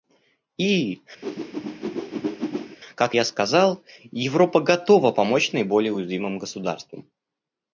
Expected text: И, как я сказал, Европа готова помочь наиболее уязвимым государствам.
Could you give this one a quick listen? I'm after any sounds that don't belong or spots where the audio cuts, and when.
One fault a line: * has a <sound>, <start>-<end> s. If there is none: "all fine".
* has a whoosh, 1.2-2.8 s